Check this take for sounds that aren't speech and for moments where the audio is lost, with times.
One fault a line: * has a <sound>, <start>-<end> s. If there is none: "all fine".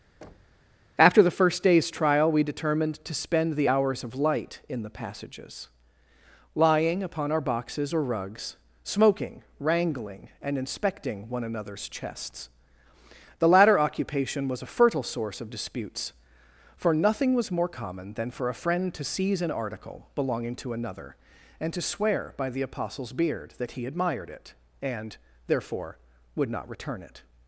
* has a thud, 0.2-0.7 s